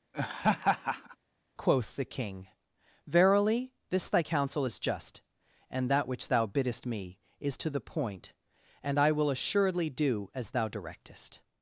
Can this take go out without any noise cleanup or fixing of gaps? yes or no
no